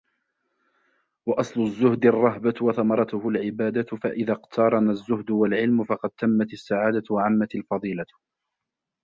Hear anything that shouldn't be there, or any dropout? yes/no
no